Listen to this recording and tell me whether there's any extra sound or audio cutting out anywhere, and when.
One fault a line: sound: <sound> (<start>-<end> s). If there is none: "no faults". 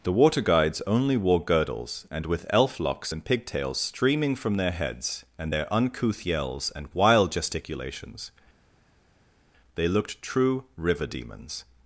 no faults